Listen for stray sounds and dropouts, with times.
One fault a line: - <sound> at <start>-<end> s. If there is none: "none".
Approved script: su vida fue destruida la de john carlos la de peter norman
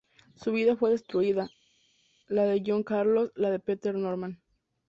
none